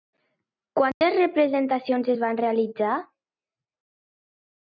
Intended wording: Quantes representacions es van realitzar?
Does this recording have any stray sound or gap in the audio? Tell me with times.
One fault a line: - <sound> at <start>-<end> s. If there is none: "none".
- dropout at 0.9-1.0 s